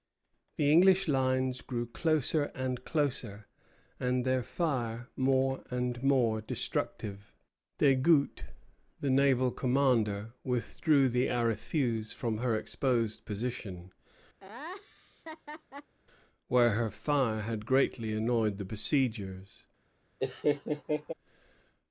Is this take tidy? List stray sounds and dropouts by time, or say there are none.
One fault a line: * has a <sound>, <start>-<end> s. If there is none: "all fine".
* has a laugh, 14.4-15.9 s
* has a laugh, 20.2-21.1 s